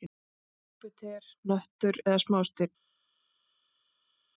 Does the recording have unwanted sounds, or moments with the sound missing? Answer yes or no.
no